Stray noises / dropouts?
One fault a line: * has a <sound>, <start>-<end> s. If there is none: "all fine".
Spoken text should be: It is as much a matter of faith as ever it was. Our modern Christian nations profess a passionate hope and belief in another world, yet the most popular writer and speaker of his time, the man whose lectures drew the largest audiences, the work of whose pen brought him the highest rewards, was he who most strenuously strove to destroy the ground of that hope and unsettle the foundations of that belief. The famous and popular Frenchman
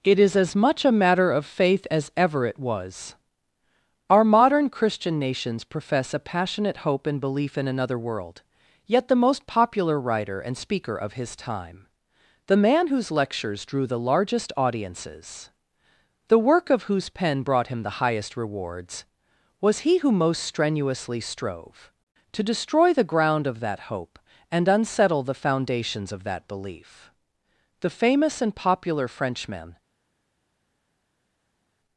all fine